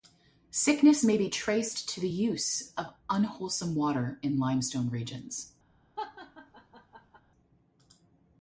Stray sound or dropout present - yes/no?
yes